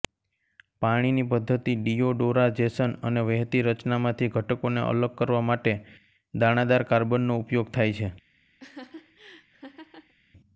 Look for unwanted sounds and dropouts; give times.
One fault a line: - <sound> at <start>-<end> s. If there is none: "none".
- laugh at 8.6-10.1 s